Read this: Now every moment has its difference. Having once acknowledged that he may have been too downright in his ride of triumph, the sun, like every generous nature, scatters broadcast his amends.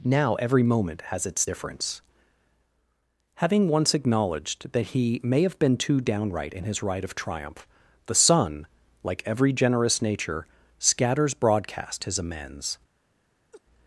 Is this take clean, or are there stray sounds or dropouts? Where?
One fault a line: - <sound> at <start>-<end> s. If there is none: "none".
- laugh at 13.5-13.6 s